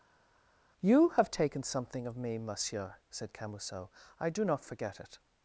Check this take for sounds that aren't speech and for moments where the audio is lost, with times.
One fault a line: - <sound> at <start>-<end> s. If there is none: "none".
none